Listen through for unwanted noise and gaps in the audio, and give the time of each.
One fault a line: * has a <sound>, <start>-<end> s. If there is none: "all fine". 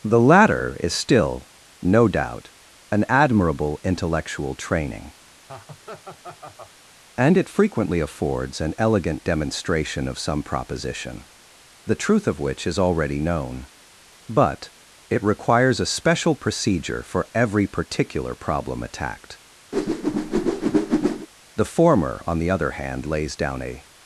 * has a laugh, 5.5-6.7 s
* has a whoosh, 19.7-21.3 s